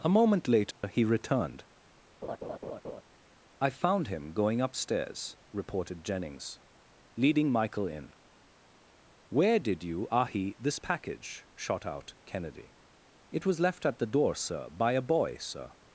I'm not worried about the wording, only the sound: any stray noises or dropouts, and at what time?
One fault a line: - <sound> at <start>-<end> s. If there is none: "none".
- dropout at 0.7-0.8 s
- laugh at 2.2-3.0 s